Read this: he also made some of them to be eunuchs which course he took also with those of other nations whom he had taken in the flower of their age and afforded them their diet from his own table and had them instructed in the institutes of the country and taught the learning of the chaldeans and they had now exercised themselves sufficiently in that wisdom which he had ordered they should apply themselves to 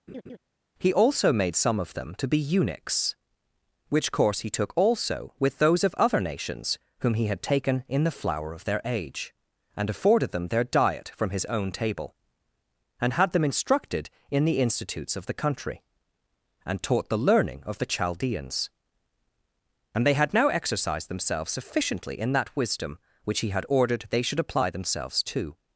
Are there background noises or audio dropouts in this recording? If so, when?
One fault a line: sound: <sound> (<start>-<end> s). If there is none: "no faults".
sound: laugh (0.1-0.4 s)